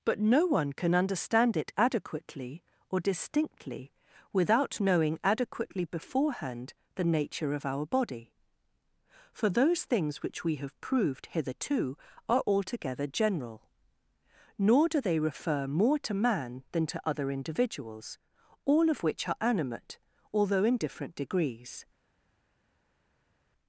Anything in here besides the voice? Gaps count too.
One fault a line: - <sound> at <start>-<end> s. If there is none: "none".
none